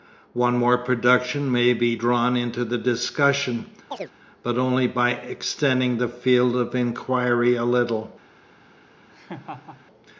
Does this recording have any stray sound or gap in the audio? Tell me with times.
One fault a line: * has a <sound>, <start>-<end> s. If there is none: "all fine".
* has a chirp, 3.9-4.1 s
* has a laugh, 9.1-9.9 s